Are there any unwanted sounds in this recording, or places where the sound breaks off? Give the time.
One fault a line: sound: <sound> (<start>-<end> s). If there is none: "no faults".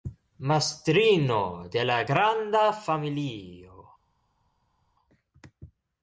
no faults